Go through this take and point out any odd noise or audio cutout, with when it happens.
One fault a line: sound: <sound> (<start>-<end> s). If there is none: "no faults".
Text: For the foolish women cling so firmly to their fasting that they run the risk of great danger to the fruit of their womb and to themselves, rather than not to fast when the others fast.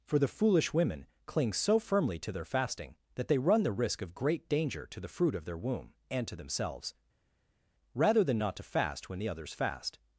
no faults